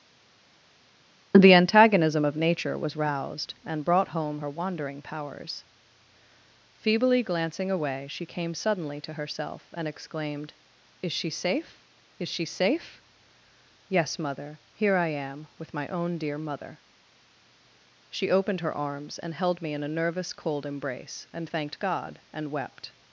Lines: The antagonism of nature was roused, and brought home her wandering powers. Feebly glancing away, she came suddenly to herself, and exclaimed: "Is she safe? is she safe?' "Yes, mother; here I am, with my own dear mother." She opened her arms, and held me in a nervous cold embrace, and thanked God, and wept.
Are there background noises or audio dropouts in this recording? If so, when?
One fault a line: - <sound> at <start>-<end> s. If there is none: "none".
none